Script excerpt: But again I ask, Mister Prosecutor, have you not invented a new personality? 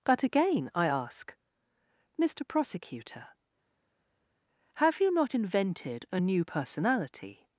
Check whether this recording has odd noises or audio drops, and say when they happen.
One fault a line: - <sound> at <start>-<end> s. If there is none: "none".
none